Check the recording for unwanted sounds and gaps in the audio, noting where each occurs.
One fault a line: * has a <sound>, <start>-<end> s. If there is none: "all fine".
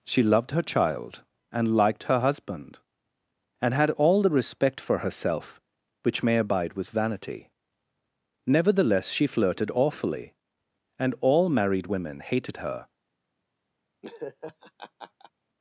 * has a laugh, 14.0-15.3 s